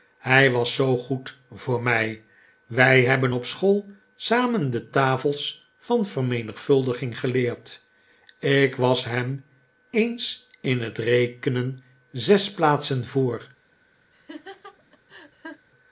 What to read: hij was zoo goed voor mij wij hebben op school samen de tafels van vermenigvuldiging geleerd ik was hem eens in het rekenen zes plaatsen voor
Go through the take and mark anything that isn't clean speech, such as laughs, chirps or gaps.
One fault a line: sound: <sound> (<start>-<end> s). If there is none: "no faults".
sound: laugh (14.1-15.7 s)